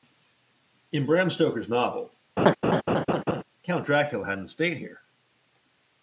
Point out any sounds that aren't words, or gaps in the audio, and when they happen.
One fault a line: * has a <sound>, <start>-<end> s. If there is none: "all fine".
* has a laugh, 2.4-3.4 s